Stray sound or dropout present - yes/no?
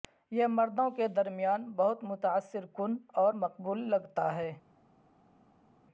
no